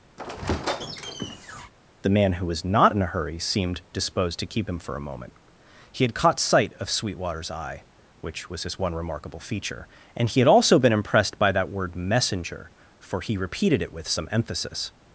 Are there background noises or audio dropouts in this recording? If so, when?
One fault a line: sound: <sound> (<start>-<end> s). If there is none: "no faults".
sound: squeak (0.2-1.7 s)